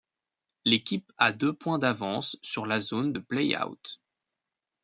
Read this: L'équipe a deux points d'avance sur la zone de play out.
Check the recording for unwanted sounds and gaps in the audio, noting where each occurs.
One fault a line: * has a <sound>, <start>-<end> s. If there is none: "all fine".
all fine